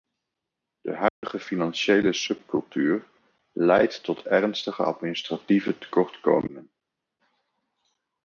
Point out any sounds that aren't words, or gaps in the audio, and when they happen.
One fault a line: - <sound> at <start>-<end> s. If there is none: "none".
- dropout at 1.1-1.2 s